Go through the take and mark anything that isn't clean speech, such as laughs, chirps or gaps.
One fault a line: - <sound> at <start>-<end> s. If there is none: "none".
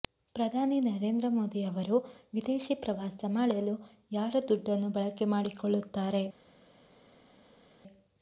none